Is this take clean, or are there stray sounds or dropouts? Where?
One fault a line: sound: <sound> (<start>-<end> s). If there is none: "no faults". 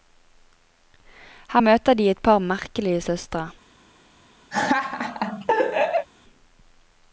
sound: laugh (4.5-6.1 s)